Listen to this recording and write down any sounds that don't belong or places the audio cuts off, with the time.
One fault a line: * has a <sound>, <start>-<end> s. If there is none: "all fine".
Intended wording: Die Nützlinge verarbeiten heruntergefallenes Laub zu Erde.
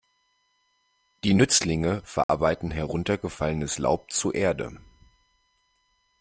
* has a dropout, 2.2-2.3 s